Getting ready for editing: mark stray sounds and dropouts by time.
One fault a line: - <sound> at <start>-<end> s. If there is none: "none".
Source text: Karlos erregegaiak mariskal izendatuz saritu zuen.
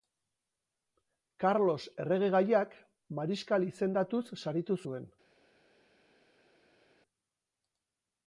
none